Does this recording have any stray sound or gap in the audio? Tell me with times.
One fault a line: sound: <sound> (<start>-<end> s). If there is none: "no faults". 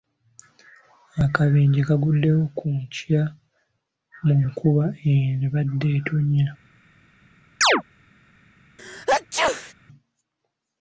sound: chirp (7.6-7.8 s)
sound: sneeze (8.8-9.7 s)